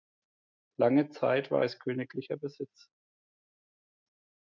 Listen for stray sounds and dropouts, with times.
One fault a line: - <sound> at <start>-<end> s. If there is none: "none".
none